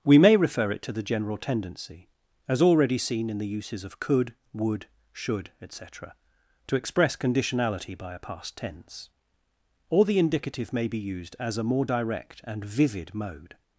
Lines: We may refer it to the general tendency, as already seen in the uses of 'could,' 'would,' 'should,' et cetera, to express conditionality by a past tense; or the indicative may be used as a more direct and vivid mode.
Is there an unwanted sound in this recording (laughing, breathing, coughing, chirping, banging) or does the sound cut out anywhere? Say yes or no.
no